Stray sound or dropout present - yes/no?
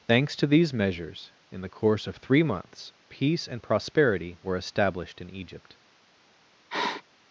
yes